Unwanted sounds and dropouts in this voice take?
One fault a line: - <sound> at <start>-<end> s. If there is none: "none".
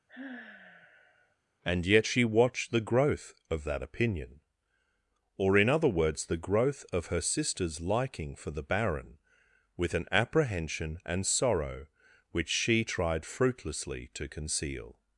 - sigh at 0.1-1.4 s